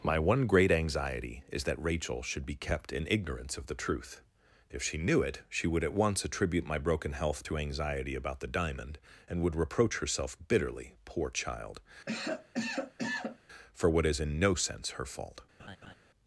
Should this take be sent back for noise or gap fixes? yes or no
yes